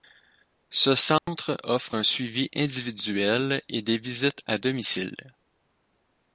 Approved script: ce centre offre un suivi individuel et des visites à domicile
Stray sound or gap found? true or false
true